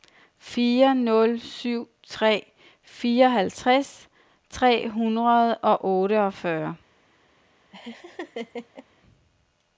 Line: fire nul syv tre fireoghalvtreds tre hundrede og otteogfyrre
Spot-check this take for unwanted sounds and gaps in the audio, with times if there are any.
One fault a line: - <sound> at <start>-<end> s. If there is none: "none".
- laugh at 7.7-8.9 s